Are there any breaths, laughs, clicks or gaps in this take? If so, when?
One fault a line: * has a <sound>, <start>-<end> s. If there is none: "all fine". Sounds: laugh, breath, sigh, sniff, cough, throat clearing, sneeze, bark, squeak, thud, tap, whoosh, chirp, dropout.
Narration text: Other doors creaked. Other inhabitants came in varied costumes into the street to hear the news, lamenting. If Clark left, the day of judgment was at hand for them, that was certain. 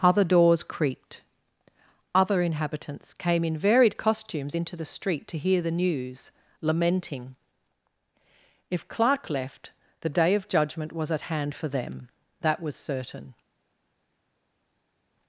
all fine